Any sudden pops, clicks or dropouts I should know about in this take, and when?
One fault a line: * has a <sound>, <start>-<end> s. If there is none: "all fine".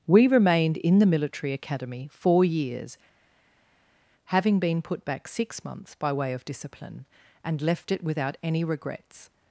all fine